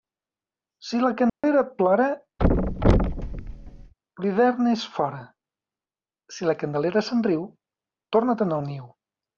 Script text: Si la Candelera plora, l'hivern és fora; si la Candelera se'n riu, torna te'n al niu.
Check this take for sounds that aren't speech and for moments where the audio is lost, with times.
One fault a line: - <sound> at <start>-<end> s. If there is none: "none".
- dropout at 1.3-1.4 s
- thud at 2.4-3.9 s